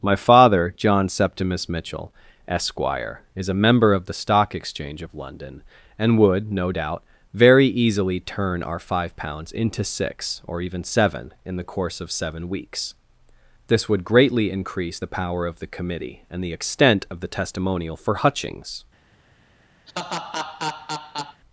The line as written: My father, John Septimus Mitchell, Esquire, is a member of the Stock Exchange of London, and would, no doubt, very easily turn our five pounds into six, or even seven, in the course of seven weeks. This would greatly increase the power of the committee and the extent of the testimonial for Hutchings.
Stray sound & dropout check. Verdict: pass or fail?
fail